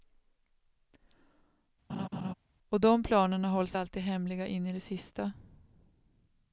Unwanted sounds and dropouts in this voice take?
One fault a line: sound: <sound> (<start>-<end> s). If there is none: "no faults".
sound: laugh (1.9-2.3 s)